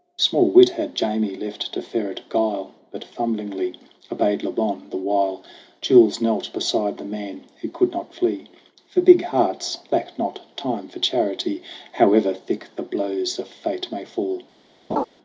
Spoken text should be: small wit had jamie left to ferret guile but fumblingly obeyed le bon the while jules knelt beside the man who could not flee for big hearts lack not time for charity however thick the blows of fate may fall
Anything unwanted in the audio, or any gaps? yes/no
yes